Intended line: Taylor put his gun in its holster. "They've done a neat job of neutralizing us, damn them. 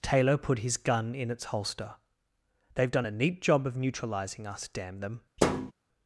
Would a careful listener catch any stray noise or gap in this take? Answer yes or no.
yes